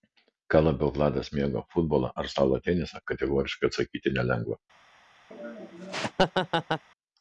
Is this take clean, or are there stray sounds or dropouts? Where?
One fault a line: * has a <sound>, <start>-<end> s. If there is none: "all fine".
* has a laugh, 5.3-6.8 s